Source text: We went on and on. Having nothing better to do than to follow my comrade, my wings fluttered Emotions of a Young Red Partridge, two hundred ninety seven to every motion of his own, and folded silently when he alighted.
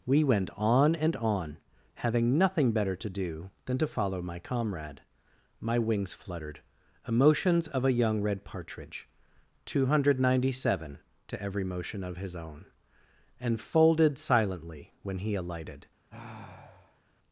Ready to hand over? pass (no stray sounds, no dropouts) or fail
fail